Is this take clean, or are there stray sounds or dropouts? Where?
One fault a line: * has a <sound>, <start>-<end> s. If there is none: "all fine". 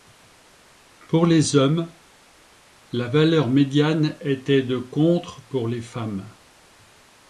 all fine